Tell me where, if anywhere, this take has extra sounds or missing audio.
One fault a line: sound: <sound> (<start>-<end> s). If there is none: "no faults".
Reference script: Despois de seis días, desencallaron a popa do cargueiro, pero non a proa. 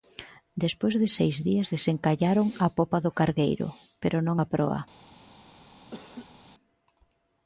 sound: laugh (5.9-6.4 s)